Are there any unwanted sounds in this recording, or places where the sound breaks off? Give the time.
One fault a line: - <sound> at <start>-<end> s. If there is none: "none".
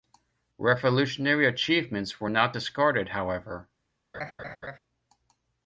- laugh at 4.1-4.8 s